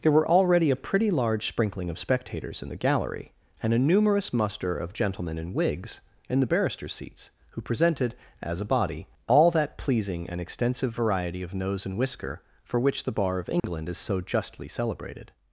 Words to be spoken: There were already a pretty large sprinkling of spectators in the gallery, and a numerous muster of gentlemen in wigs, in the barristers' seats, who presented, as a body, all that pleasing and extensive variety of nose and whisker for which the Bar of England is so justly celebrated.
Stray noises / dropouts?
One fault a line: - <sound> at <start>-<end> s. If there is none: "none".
- dropout at 13.6-13.6 s